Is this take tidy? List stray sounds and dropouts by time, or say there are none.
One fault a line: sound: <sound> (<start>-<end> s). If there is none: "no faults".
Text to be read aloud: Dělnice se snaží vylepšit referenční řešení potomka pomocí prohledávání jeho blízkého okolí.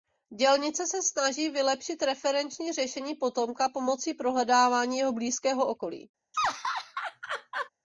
sound: laugh (6.3-7.7 s)